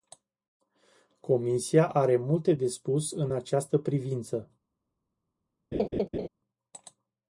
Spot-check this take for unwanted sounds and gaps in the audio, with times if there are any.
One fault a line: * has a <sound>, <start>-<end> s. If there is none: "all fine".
* has a laugh, 5.7-6.3 s